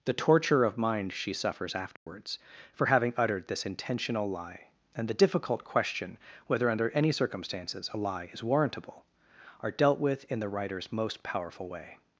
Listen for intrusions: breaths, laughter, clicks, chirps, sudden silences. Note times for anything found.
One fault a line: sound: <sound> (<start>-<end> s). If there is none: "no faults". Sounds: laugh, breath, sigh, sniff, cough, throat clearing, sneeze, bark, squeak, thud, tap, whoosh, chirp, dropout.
sound: dropout (2.0-2.1 s)